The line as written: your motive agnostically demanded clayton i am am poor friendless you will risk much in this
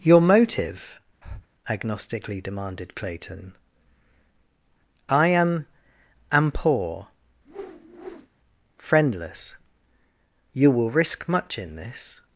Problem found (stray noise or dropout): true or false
true